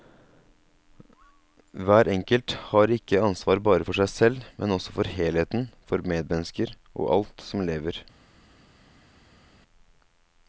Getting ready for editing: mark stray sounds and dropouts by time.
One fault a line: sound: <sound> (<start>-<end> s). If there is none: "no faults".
no faults